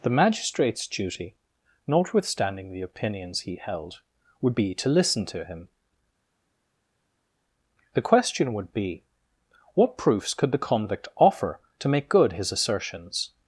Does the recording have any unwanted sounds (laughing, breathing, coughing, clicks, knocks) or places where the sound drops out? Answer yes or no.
no